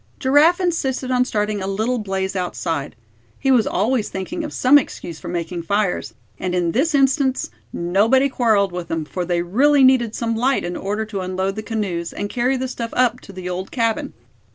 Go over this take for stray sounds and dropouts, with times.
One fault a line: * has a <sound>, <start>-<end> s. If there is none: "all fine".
all fine